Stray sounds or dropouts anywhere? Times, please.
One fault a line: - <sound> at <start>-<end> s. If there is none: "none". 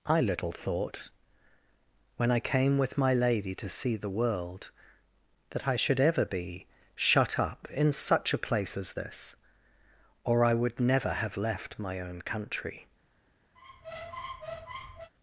- squeak at 13.6-15.1 s